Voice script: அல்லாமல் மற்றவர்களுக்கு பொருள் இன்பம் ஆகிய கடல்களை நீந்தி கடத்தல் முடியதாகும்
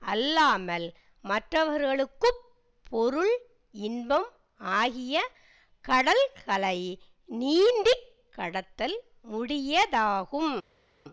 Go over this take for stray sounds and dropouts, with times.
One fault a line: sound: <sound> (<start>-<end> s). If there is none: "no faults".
no faults